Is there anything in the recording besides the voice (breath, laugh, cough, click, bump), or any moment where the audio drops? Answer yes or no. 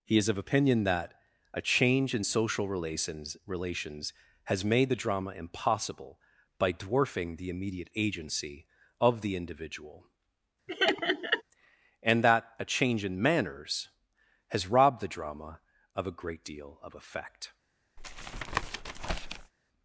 yes